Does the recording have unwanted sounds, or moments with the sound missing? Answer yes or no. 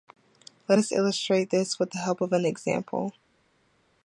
no